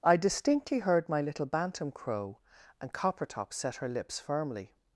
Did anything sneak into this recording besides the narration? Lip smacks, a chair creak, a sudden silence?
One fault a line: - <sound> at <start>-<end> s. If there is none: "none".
none